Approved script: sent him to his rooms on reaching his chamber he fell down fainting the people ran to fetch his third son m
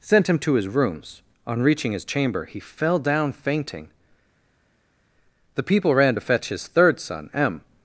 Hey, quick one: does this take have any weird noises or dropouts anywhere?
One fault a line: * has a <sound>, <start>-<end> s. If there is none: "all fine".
all fine